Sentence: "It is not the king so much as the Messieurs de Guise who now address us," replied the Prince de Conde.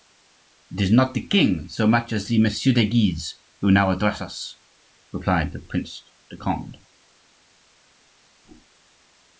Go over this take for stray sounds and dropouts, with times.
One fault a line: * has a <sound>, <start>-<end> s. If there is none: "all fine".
all fine